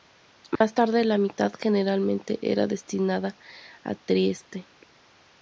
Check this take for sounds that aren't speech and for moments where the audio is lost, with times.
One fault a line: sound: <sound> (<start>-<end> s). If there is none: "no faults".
sound: dropout (0.6-0.6 s)